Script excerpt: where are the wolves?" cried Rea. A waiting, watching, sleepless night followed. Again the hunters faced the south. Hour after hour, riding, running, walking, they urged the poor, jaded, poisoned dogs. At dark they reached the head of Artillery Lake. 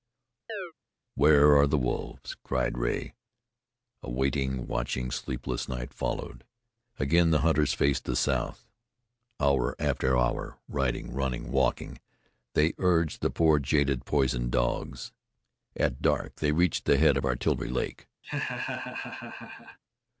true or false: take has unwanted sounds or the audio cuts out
true